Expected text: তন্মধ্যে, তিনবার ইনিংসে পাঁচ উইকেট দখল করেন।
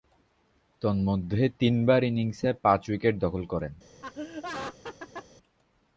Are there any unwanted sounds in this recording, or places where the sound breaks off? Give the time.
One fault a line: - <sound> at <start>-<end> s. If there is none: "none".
- laugh at 4.0-5.3 s